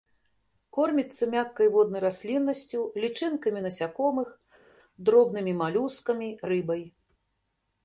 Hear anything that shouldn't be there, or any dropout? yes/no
no